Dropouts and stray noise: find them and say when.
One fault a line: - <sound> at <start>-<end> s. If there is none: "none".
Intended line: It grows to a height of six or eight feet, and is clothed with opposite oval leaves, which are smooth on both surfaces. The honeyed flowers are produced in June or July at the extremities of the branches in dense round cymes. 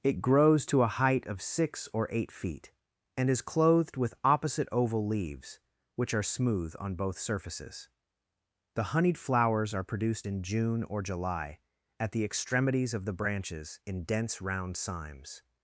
none